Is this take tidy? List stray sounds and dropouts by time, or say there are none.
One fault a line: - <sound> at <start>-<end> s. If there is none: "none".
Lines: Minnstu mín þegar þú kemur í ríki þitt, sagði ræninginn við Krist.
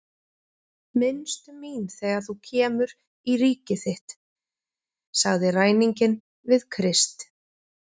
none